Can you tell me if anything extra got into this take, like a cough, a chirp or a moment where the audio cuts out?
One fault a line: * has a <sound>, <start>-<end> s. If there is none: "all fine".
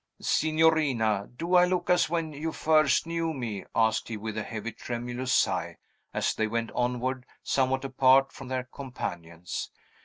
all fine